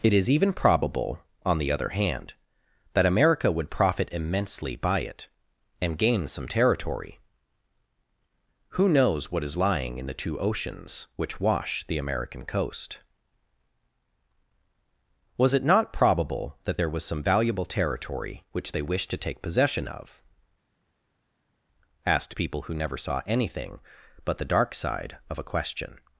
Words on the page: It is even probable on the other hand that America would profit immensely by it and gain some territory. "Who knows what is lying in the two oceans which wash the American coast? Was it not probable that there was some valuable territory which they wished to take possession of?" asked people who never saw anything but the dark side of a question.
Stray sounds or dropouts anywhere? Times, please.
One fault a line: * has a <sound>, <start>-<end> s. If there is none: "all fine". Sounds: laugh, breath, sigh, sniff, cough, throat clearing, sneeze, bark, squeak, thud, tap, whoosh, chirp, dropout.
all fine